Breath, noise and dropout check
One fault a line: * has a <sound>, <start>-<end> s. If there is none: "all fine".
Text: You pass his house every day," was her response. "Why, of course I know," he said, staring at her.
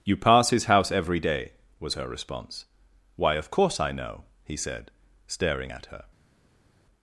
all fine